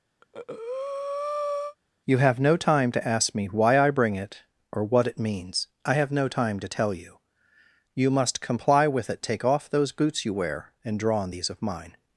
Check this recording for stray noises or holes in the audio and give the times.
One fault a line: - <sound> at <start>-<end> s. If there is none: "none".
- breath at 0.2-1.8 s